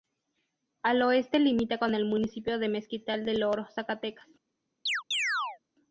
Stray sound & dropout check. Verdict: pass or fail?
fail